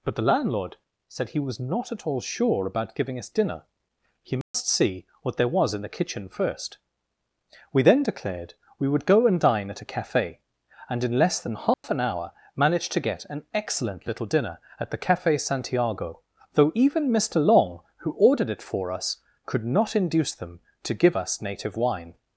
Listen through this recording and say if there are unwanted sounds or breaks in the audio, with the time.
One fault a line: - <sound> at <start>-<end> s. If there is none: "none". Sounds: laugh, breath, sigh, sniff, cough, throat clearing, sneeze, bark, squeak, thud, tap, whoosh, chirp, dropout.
- dropout at 4.4-4.5 s
- dropout at 11.7-11.8 s